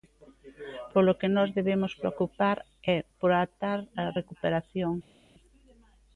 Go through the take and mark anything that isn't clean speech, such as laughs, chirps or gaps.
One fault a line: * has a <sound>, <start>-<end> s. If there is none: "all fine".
all fine